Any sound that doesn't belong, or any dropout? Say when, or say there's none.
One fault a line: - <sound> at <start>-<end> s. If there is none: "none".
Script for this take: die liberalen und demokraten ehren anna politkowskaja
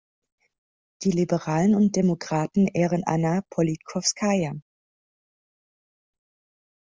none